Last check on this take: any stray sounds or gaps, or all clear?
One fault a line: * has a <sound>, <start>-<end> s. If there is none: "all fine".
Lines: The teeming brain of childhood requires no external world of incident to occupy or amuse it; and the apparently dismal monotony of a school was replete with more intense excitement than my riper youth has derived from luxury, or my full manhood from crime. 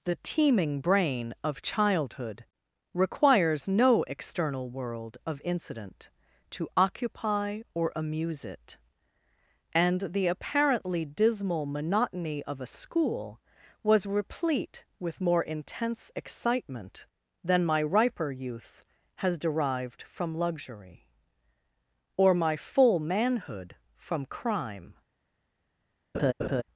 * has a laugh, 26.1-26.6 s